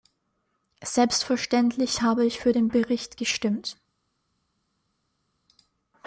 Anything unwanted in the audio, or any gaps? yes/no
no